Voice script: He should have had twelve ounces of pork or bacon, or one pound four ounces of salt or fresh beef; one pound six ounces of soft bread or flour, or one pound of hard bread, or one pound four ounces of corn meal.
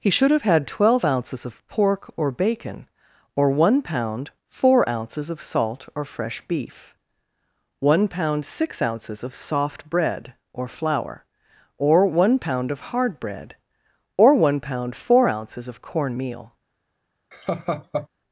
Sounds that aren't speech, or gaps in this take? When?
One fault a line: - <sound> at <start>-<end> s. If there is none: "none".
- laugh at 17.3-18.1 s